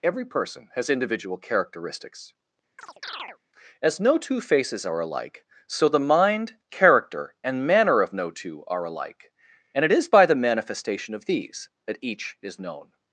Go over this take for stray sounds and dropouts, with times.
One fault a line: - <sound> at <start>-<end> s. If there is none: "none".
- chirp at 2.8-3.4 s